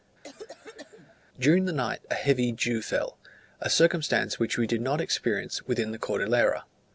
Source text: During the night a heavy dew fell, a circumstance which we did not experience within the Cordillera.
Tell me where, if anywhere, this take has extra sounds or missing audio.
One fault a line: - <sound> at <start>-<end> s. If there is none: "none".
- cough at 0.2-1.2 s